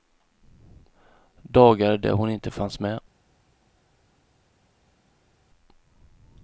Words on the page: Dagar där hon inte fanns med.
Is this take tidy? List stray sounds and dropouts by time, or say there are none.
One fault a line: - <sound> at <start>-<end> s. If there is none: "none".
none